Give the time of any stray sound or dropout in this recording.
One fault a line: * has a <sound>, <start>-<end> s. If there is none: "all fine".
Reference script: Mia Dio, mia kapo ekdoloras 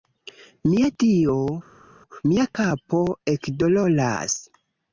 all fine